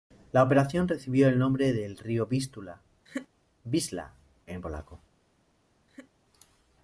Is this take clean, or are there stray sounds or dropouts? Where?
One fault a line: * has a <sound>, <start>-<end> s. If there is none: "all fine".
* has a laugh, 3.1-3.3 s
* has a laugh, 5.9-6.1 s